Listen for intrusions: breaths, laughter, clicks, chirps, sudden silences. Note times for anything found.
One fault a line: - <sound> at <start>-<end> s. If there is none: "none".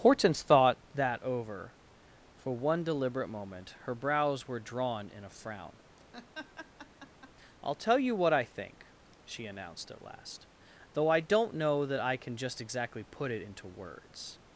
- laugh at 6.1-7.3 s